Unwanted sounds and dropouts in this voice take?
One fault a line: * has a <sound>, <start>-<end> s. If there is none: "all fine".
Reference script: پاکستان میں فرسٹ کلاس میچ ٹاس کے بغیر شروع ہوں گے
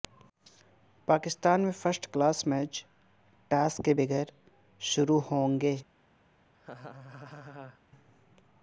* has a laugh, 6.5-7.8 s